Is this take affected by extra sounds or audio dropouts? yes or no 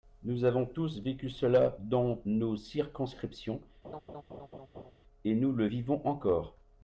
yes